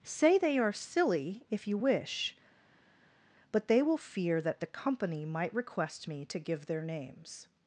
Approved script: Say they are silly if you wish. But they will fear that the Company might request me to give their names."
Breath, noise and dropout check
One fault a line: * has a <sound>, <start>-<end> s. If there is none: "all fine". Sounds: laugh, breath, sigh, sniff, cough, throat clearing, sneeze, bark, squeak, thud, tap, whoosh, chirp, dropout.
all fine